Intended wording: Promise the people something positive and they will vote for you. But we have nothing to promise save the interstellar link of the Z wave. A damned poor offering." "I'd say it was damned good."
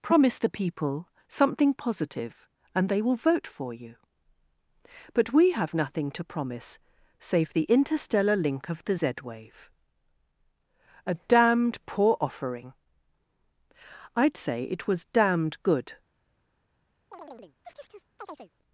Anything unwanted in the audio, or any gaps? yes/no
yes